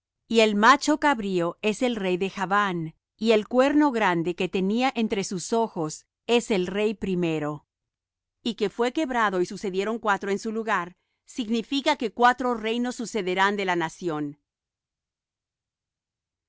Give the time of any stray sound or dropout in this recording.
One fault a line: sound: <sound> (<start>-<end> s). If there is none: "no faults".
no faults